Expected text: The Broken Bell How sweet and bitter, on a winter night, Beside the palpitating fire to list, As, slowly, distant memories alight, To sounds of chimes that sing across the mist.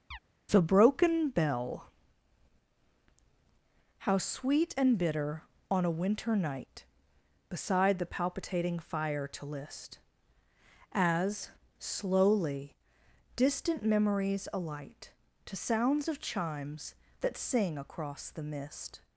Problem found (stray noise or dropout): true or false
true